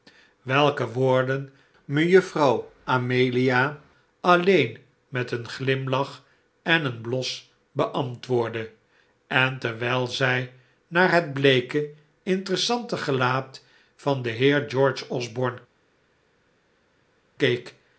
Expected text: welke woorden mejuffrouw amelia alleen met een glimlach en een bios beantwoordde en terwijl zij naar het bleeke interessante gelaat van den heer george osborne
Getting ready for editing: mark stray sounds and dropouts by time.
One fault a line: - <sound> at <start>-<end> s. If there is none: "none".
none